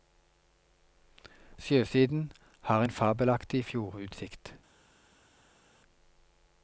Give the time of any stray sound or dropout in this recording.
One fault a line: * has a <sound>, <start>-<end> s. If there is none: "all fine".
all fine